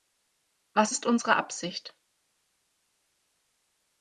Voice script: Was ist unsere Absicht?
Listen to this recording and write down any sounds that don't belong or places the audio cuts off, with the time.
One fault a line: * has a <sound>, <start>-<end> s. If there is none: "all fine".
all fine